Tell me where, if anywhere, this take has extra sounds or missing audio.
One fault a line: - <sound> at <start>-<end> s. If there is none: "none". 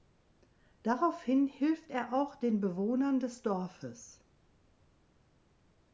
none